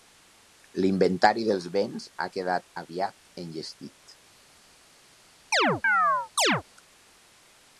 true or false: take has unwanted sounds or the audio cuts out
true